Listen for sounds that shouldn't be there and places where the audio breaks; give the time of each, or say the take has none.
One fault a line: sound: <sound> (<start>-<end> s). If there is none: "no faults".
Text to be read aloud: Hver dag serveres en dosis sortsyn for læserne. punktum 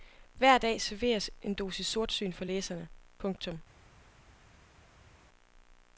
no faults